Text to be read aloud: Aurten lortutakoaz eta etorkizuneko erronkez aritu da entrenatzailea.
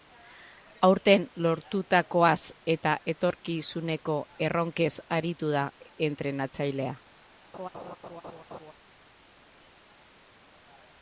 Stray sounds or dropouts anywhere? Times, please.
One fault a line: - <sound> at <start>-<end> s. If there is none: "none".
- laugh at 7.5-8.7 s